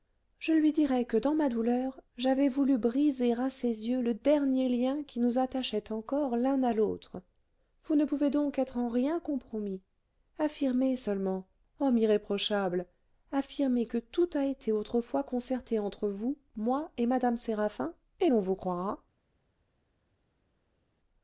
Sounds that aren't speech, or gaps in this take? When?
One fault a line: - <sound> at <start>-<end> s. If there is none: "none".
none